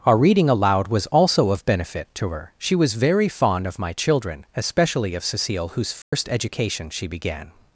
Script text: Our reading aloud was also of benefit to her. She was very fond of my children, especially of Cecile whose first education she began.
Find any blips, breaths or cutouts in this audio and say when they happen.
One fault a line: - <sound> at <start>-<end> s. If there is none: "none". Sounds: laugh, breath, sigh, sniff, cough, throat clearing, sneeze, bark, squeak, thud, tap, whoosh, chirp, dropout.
- dropout at 6.0-6.1 s